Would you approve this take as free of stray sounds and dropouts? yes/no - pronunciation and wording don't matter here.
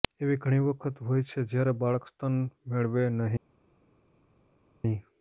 yes